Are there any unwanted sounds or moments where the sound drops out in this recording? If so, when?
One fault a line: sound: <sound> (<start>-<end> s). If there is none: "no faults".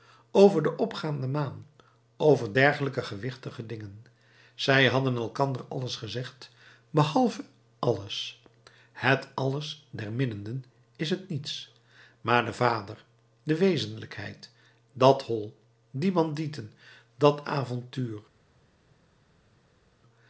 no faults